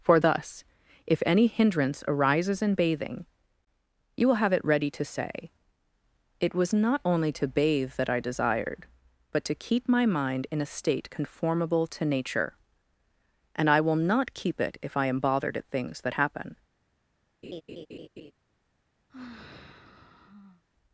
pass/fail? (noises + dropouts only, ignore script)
fail